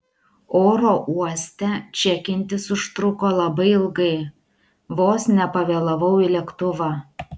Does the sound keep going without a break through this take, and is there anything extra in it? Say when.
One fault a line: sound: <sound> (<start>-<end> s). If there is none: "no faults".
no faults